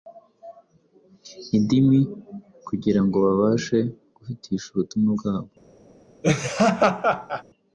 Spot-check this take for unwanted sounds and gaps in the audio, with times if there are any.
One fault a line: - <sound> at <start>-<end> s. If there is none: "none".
- laugh at 6.2-7.4 s